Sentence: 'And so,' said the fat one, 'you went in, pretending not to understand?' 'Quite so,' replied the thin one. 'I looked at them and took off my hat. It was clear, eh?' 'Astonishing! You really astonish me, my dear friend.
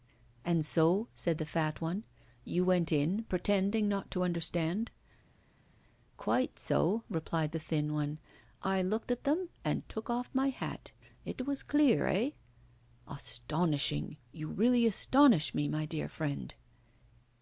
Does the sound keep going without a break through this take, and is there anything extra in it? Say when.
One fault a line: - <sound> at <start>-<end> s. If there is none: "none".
none